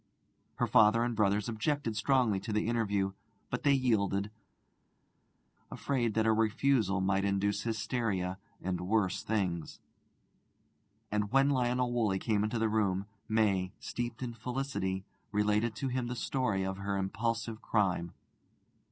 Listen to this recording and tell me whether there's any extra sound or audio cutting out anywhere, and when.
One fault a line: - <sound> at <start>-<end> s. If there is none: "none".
none